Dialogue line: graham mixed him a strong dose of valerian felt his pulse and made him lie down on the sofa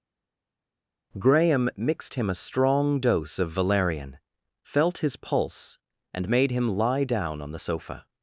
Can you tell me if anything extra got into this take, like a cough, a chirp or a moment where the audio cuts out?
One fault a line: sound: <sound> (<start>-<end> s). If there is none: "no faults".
no faults